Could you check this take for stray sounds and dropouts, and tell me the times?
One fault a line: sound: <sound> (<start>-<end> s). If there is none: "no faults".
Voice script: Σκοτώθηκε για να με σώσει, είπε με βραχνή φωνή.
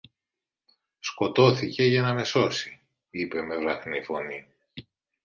no faults